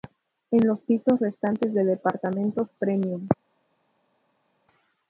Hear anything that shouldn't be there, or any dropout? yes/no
no